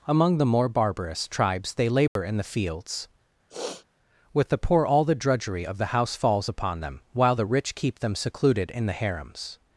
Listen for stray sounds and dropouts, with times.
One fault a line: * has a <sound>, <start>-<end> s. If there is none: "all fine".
* has a dropout, 2.1-2.2 s
* has a sniff, 3.5-3.9 s